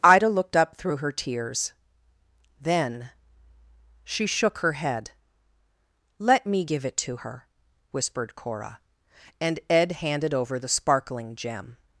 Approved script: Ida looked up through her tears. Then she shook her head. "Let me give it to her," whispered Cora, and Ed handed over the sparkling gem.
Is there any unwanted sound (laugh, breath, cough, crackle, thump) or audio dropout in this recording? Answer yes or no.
no